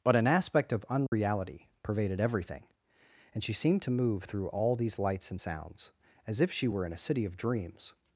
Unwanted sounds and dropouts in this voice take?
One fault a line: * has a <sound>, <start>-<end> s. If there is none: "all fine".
* has a dropout, 1.1-1.1 s